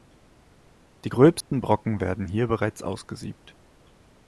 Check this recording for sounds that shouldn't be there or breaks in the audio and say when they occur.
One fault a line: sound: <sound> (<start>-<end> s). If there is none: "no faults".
sound: dropout (1.4-1.5 s)